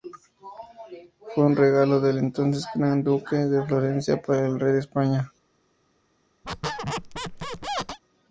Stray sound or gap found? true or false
true